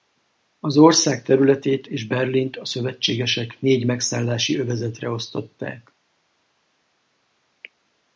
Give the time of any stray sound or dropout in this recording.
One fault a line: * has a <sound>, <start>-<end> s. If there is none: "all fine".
all fine